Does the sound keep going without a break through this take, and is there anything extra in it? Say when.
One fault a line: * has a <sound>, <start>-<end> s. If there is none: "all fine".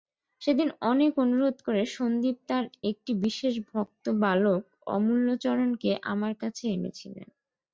all fine